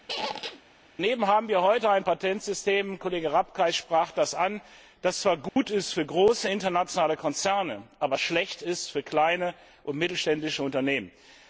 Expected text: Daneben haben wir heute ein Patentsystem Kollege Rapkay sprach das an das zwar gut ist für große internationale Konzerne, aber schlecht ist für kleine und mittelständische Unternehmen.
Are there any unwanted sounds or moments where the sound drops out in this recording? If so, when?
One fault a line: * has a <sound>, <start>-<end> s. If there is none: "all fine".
* has a squeak, 0.1-0.6 s
* has a dropout, 5.5-5.6 s